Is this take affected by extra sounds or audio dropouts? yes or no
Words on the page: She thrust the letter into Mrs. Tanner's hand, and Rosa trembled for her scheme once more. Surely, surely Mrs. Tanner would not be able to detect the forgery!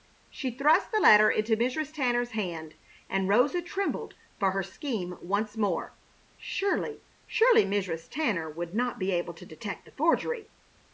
no